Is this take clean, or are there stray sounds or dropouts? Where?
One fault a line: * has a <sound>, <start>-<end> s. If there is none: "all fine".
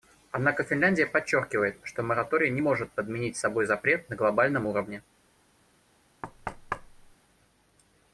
* has a thud, 6.2-7.1 s